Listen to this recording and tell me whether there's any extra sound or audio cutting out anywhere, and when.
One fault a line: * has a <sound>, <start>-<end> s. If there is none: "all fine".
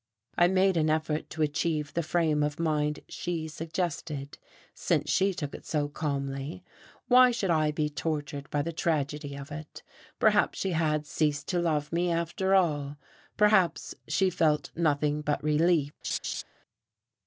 * has a laugh, 16.0-16.4 s